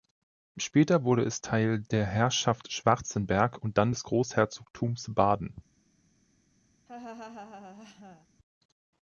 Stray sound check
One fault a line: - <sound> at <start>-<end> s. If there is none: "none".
- laugh at 6.9-8.3 s